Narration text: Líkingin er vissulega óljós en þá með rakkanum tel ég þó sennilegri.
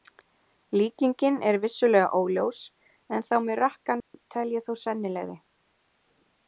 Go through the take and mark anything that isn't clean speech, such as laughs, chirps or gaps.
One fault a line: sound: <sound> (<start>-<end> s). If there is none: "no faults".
sound: dropout (4.0-4.1 s)